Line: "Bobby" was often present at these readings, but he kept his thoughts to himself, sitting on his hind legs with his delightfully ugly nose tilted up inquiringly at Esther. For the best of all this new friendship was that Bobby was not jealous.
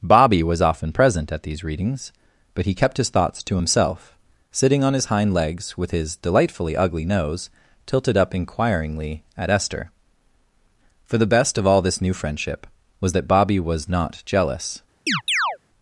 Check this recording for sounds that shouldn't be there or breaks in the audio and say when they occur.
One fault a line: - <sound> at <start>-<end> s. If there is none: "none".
- chirp at 15.1-15.6 s